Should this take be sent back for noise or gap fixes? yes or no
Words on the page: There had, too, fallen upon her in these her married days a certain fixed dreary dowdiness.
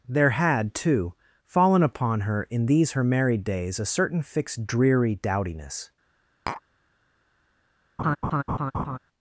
yes